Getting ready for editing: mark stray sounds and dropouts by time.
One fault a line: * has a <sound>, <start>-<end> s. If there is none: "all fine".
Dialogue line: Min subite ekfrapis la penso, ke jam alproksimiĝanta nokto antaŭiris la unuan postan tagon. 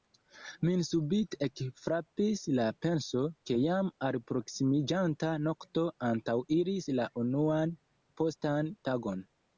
all fine